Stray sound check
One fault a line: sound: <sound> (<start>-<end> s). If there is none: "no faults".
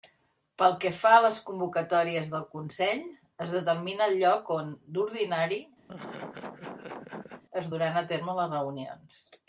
sound: laugh (5.9-7.4 s)